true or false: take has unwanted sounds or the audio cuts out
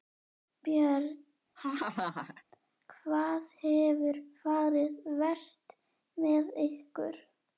true